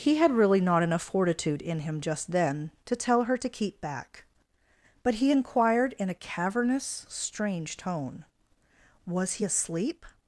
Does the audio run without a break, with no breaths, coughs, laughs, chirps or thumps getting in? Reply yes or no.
yes